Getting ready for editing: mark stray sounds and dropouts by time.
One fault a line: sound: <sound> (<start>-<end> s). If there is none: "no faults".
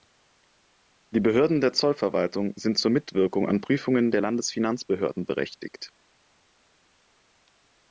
no faults